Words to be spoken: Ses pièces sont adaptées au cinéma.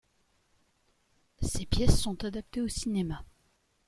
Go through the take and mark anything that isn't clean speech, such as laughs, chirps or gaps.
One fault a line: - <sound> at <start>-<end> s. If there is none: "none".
none